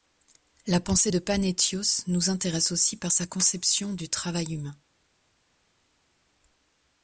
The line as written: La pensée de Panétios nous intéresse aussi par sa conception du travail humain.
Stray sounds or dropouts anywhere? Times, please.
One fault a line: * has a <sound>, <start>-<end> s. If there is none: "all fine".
all fine